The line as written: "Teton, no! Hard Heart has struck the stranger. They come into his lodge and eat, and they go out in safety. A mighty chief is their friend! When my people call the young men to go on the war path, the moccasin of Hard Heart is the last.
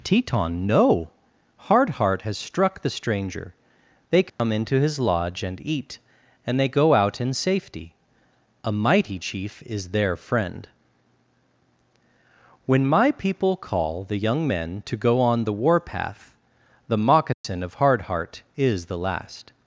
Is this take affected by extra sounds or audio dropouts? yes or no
yes